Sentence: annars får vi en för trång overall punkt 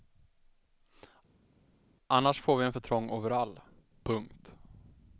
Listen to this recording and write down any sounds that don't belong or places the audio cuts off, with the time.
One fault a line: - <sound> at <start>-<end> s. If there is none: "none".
none